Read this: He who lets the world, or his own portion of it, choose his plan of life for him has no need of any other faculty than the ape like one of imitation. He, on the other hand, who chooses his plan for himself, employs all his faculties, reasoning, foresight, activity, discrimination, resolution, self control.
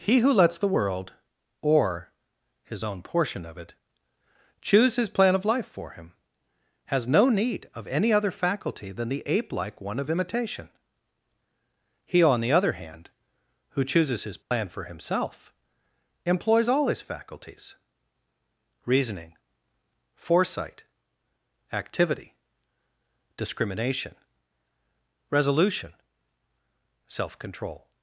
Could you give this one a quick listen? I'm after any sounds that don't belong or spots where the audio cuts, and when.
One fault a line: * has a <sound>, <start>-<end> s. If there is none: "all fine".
* has a dropout, 14.4-14.5 s